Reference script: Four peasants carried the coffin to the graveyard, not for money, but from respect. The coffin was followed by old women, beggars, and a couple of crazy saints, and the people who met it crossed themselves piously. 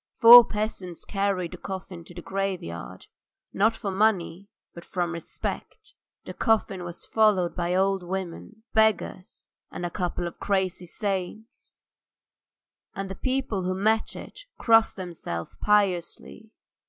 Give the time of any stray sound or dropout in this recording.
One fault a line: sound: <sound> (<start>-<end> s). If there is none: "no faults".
no faults